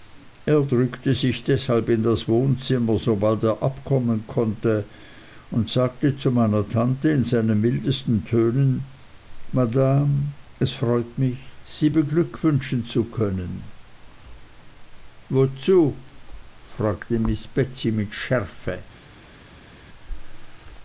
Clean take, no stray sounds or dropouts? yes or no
yes